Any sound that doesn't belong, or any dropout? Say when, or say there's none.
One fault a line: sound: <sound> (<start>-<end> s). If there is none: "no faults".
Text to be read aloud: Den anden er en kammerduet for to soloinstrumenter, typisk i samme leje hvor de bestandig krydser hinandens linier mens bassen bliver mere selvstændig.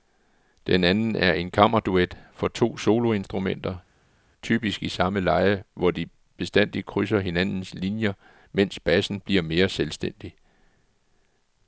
no faults